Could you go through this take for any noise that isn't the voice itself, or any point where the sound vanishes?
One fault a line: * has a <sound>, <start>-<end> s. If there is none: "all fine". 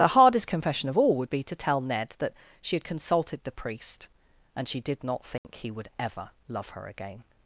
* has a dropout, 5.4-5.4 s